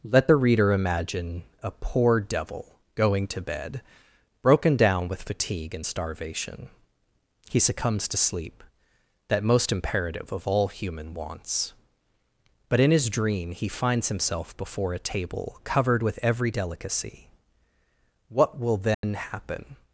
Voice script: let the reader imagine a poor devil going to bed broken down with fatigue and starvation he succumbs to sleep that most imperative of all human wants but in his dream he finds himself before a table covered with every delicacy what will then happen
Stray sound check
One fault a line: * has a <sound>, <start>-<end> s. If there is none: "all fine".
* has a dropout, 18.9-19.0 s